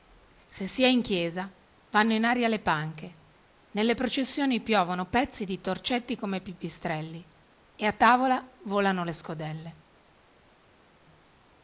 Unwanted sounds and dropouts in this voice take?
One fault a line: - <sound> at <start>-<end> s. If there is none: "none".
none